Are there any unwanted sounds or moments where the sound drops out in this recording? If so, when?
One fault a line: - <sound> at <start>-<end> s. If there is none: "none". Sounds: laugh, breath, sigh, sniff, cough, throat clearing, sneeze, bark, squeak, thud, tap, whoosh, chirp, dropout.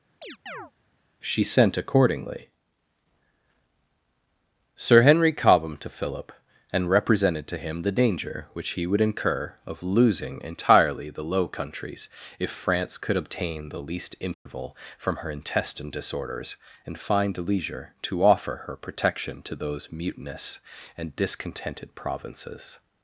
- chirp at 0.2-0.7 s
- dropout at 14.3-14.5 s